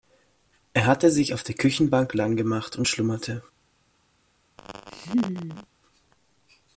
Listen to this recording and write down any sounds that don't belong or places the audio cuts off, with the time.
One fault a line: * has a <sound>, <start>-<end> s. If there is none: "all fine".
* has a laugh, 4.6-5.7 s